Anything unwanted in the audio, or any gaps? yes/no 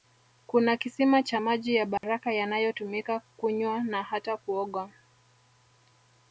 yes